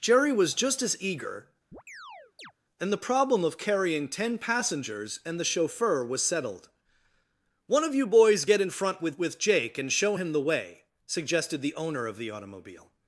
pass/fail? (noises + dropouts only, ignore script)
fail